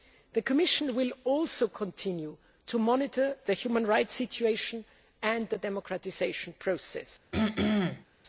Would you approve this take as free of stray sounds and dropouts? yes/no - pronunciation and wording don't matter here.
no